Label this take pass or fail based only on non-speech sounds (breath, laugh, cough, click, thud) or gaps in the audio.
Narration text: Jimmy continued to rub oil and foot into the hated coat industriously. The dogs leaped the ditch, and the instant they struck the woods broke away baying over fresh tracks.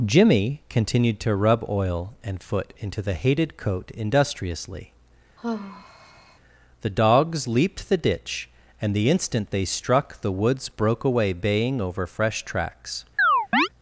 fail